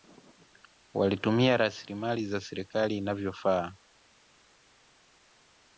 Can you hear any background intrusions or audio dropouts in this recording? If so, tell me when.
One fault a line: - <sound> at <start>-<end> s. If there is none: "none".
none